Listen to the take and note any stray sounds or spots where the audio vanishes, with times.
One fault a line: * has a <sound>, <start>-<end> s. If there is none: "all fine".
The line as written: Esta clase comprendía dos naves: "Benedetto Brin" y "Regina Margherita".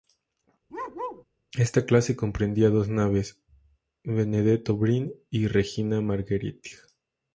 * has a bark, 0.7-1.2 s